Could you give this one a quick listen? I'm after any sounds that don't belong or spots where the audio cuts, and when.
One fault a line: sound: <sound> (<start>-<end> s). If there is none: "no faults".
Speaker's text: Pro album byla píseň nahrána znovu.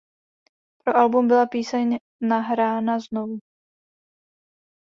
no faults